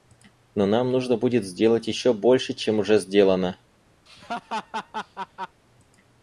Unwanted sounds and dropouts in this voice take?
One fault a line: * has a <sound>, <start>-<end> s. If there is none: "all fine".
* has a laugh, 4.1-5.6 s